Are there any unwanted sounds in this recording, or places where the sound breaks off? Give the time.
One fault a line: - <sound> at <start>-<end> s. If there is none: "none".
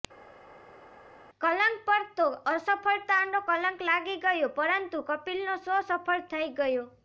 none